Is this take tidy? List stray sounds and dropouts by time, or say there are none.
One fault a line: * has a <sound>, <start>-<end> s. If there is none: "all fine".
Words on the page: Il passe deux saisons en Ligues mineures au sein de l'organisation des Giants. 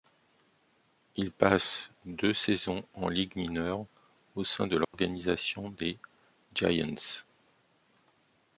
* has a dropout, 4.8-4.9 s